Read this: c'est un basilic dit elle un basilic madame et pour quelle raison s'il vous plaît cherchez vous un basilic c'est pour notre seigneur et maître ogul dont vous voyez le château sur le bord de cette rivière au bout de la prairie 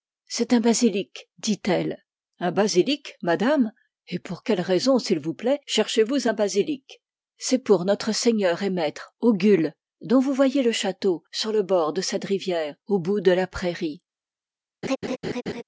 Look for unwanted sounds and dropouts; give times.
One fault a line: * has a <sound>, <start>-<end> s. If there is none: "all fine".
* has a laugh, 14.8-15.6 s